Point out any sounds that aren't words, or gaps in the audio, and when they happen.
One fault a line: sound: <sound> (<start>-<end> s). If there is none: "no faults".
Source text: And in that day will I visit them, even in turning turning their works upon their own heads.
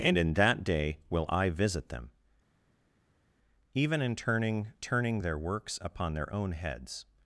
no faults